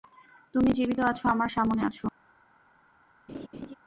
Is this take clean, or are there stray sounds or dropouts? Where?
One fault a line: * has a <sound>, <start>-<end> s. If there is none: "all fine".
* has a laugh, 3.3-3.7 s